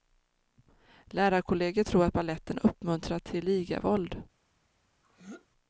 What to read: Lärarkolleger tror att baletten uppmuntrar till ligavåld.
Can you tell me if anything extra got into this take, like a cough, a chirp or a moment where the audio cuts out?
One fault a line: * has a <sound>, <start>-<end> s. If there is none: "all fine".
* has a throat clearing, 5.0-5.5 s